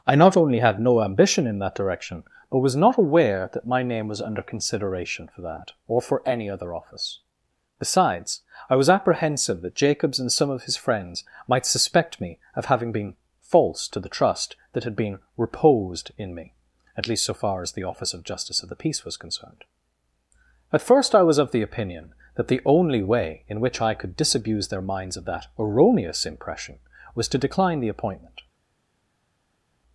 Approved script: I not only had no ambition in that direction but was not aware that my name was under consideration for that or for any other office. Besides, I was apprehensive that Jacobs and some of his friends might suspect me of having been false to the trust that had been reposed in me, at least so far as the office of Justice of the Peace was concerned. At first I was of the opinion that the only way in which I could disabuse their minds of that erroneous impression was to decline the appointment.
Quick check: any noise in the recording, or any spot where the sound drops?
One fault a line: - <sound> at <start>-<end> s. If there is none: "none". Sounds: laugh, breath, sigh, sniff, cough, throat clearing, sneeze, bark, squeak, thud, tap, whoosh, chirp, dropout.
none